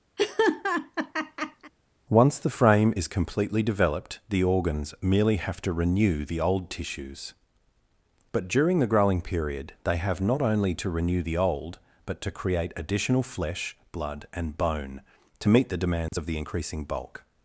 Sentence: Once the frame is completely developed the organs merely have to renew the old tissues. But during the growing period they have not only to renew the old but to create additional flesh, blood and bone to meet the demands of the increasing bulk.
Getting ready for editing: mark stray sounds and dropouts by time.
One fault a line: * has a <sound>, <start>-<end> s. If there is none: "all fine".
* has a laugh, 0.2-1.7 s
* has a dropout, 16.1-16.1 s